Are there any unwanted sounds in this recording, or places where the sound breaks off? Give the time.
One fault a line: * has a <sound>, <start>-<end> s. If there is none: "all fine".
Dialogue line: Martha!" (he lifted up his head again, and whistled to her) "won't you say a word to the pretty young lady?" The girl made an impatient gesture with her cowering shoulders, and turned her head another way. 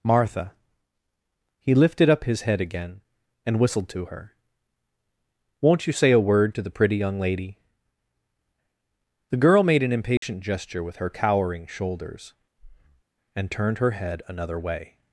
* has a dropout, 10.2-10.2 s
* has a breath, 12.6-13.0 s